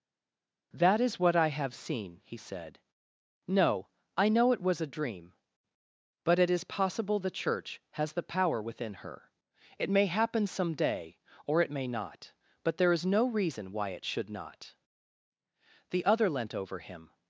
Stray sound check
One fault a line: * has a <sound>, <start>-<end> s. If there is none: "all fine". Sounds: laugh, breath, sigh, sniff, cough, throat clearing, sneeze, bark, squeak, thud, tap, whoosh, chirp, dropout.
all fine